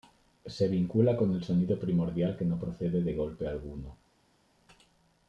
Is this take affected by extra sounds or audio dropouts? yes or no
no